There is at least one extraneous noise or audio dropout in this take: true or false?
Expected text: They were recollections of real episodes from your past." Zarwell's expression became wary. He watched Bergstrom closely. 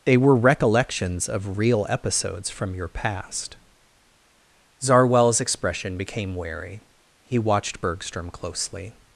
false